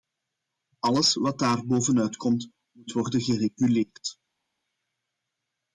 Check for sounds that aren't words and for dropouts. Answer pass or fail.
pass